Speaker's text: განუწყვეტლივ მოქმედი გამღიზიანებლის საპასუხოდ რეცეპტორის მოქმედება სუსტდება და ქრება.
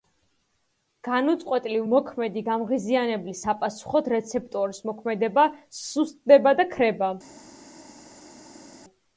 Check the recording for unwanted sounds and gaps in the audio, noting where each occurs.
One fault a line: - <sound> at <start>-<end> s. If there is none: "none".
none